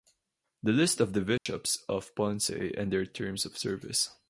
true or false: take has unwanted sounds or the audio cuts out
true